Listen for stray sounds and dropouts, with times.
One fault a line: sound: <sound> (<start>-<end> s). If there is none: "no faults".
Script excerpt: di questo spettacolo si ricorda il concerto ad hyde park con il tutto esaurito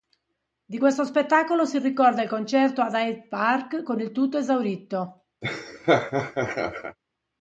sound: laugh (5.4-7.0 s)